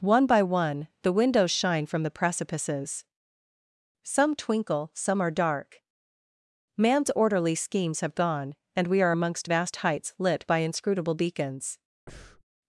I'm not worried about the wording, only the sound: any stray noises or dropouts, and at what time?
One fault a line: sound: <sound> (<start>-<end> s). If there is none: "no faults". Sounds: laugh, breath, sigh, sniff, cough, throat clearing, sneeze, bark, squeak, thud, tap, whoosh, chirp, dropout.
sound: breath (12.1-12.4 s)